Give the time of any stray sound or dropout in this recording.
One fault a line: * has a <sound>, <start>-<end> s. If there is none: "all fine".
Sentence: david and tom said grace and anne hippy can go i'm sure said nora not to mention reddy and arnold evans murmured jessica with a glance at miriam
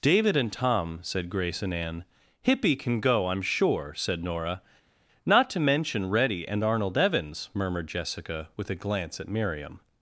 all fine